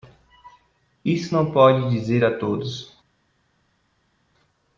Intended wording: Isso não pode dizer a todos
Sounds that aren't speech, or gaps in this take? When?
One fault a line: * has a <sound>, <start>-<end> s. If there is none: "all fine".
all fine